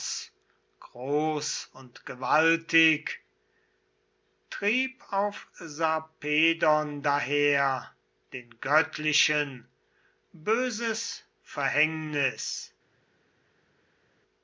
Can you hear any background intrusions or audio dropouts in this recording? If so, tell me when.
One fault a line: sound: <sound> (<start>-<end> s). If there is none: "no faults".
no faults